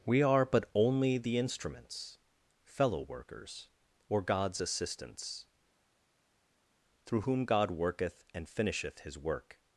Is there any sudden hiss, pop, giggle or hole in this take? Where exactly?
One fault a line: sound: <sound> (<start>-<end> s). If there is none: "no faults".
no faults